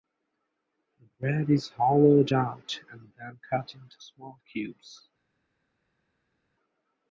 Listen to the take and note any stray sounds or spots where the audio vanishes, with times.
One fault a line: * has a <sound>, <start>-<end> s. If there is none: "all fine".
all fine